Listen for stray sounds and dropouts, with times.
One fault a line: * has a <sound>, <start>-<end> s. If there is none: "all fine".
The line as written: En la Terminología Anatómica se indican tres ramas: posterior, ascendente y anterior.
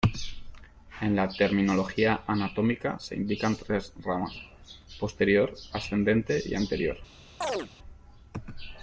* has a chirp, 7.4-7.7 s